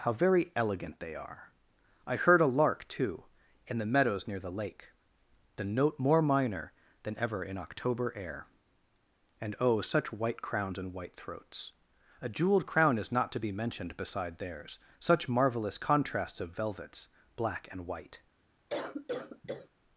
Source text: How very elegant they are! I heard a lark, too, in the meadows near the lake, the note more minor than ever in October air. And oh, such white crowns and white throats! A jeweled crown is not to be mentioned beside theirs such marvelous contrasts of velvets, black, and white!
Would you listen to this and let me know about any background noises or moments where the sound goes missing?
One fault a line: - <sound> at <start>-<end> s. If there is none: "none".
- cough at 18.7-19.7 s